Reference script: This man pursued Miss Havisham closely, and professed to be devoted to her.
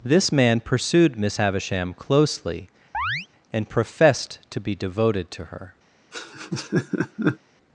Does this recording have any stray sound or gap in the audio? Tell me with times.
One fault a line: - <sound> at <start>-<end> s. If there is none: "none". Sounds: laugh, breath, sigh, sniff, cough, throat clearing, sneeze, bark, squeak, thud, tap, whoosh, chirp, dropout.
- chirp at 2.9-3.3 s
- laugh at 6.1-7.4 s